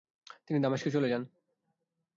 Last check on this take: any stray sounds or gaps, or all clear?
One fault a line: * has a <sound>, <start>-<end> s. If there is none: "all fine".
all fine